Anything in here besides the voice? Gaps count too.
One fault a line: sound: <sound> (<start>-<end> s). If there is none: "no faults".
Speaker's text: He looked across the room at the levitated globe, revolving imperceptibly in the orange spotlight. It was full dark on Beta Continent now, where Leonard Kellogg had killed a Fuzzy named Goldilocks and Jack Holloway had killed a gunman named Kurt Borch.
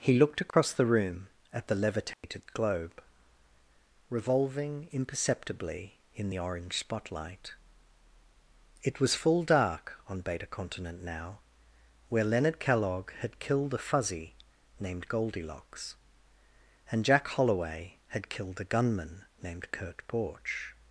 sound: dropout (0.5-0.5 s)
sound: dropout (2.1-2.2 s)